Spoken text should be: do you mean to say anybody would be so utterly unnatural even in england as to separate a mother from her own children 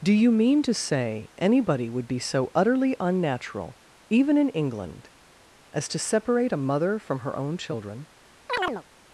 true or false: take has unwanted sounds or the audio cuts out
true